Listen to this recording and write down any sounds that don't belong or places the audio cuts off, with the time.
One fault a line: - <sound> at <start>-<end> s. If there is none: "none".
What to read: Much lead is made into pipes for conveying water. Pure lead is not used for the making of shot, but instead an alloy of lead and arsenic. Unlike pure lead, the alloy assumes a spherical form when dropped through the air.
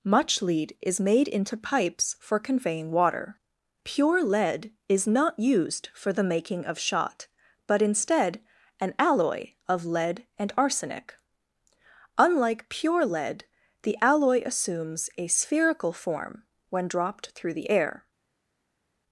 none